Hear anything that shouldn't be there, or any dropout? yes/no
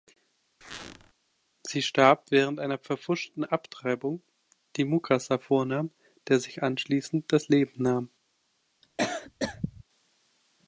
yes